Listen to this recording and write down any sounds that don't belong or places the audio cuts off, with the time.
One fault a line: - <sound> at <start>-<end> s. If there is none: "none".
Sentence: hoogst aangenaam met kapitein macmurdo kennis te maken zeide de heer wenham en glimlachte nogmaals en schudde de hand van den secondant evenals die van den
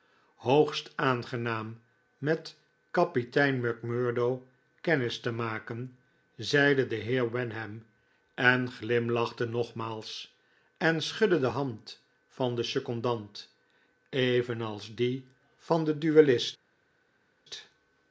none